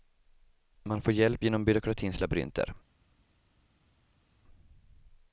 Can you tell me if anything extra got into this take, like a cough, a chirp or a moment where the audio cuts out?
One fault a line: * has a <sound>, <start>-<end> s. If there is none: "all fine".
all fine